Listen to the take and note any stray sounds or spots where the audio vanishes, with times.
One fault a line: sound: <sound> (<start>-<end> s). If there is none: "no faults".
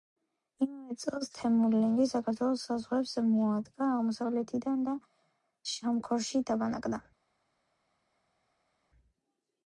no faults